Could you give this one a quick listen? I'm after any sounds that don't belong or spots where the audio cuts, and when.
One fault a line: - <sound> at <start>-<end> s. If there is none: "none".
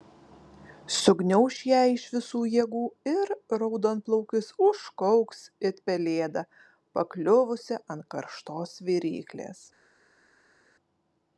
none